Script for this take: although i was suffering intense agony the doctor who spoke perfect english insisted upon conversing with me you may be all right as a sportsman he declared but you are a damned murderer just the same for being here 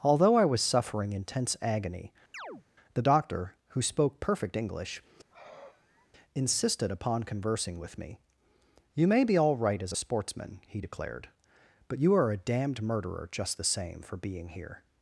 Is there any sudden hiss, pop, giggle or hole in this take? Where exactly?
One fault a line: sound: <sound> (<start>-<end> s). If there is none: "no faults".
sound: chirp (2.3-2.6 s)
sound: sigh (5.3-6.1 s)